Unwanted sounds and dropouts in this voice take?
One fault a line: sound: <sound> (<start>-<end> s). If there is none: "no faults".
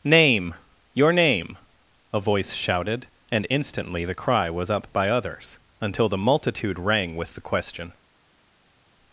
no faults